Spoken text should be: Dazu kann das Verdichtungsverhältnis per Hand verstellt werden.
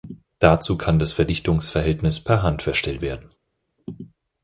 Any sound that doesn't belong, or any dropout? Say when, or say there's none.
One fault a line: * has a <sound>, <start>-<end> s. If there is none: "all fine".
all fine